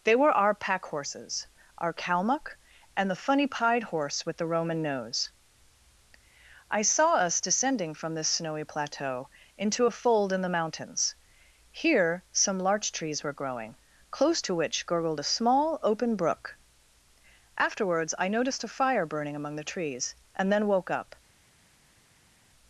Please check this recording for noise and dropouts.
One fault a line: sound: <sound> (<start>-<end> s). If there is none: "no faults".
no faults